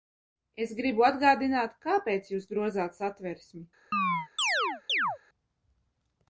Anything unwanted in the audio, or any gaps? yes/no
yes